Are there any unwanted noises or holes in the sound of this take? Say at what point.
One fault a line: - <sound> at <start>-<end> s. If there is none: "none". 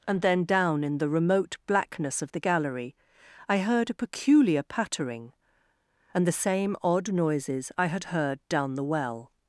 none